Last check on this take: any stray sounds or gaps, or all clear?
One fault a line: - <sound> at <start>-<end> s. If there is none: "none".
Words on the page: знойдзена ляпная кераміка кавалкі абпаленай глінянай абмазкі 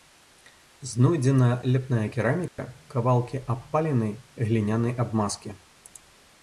- dropout at 2.5-2.6 s